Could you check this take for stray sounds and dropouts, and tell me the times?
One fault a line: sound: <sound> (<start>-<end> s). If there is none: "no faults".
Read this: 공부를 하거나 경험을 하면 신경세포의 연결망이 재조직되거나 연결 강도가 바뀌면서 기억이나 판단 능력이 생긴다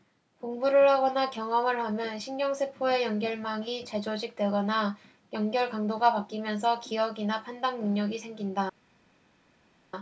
no faults